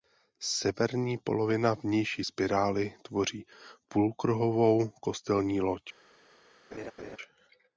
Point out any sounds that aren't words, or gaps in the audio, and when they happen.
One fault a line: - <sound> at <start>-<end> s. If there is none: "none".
- laugh at 6.7-7.2 s